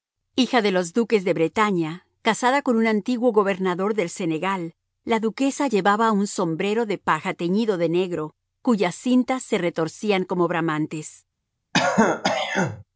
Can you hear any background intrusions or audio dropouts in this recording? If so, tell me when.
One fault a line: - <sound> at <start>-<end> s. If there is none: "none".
- throat clearing at 11.7-12.8 s